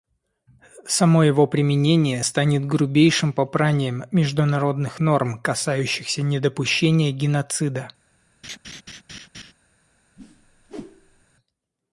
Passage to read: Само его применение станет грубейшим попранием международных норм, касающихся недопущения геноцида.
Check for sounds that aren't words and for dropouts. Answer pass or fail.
fail